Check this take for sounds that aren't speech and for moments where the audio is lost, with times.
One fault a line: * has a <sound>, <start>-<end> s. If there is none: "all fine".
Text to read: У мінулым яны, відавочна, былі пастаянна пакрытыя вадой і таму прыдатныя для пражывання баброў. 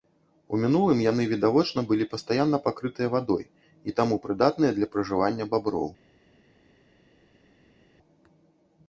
all fine